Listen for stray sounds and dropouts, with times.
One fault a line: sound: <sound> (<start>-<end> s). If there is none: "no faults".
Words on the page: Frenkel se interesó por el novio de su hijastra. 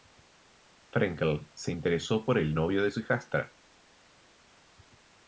no faults